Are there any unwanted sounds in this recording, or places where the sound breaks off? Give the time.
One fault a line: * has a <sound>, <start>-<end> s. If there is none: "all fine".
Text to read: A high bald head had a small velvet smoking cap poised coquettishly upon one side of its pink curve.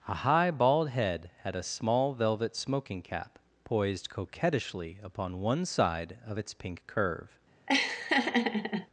* has a laugh, 7.7-8.9 s